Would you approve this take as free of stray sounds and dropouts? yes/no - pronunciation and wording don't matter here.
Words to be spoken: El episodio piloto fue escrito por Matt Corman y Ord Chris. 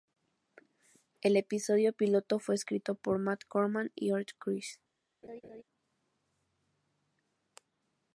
no